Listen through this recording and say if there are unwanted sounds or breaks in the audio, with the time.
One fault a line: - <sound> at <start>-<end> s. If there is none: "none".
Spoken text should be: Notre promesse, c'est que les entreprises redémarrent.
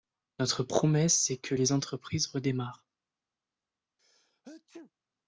- sneeze at 4.0-4.9 s